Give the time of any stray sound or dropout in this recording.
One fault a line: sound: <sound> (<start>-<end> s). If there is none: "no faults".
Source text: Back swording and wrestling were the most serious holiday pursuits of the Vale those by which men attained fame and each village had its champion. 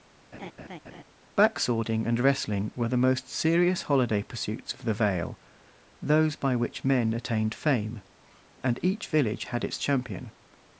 sound: laugh (0.3-1.0 s)